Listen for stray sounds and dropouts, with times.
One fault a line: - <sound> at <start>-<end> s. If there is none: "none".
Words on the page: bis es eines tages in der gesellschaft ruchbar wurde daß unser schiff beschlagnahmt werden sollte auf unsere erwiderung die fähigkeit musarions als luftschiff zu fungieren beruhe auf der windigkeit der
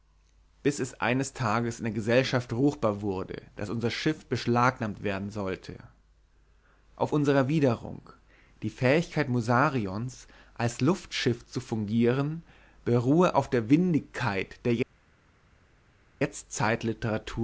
none